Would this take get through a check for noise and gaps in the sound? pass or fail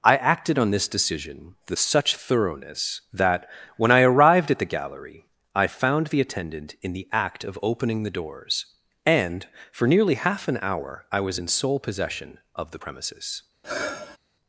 fail